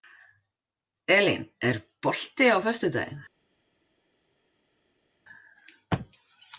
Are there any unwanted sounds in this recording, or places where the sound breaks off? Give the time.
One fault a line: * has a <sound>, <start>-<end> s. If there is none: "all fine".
all fine